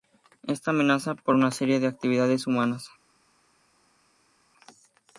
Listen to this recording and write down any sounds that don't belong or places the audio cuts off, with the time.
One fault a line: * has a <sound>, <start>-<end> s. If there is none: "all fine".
all fine